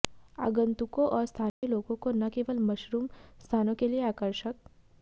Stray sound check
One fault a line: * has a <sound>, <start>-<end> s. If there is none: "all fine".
* has a dropout, 1.5-1.6 s